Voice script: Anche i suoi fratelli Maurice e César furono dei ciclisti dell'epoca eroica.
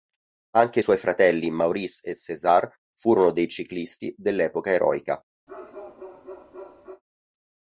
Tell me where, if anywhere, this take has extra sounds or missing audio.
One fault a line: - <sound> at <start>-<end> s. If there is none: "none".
- bark at 5.5-7.0 s